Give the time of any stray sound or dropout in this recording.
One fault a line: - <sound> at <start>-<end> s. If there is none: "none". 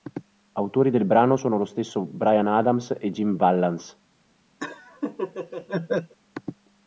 - laugh at 4.6-6.1 s